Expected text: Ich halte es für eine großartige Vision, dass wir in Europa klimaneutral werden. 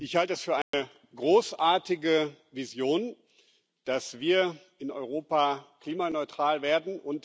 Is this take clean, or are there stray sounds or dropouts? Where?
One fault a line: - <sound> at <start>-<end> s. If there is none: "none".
- dropout at 0.6-0.7 s